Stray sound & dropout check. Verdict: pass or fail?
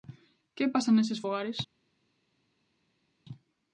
pass